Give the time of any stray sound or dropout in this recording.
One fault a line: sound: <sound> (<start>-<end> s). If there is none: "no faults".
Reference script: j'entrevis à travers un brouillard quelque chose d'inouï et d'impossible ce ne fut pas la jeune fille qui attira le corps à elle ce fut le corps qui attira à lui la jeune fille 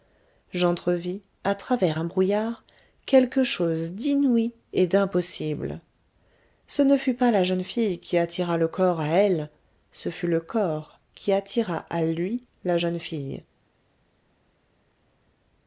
no faults